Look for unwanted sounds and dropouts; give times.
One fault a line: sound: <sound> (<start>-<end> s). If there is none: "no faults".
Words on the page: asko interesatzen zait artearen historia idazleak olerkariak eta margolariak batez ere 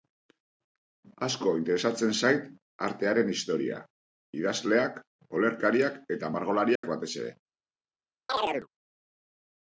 sound: dropout (6.8-6.8 s)
sound: chirp (8.3-8.7 s)